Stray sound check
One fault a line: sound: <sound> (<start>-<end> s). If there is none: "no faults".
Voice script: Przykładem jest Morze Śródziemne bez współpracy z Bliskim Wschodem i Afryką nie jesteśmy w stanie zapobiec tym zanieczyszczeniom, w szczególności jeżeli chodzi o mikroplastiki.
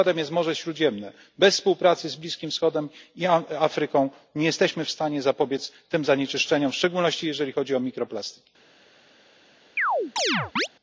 sound: chirp (9.8-10.7 s)